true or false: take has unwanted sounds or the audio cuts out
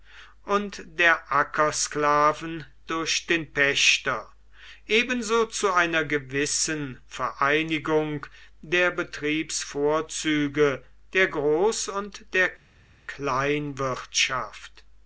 false